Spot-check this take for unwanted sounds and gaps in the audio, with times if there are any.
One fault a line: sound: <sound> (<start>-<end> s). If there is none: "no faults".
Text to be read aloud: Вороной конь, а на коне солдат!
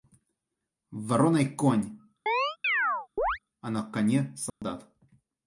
sound: chirp (2.3-3.4 s)
sound: dropout (4.5-4.6 s)